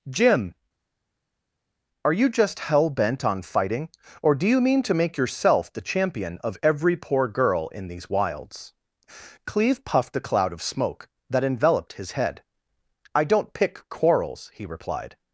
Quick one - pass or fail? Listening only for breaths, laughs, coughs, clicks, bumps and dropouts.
pass